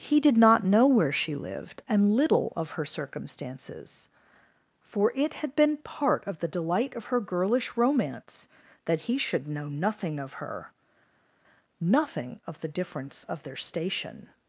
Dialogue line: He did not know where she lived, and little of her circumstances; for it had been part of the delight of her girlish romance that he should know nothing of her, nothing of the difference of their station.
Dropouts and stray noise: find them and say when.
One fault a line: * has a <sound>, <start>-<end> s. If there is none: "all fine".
all fine